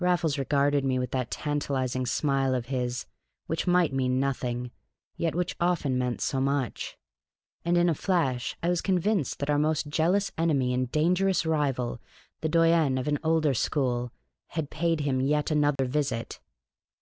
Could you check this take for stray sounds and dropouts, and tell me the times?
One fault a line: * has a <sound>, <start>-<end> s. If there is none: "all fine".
* has a dropout, 15.8-15.8 s